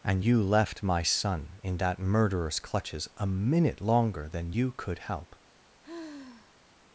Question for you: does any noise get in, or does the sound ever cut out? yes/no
yes